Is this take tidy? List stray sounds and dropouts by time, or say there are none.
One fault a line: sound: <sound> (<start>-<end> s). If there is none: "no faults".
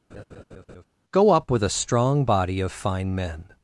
sound: laugh (0.1-0.8 s)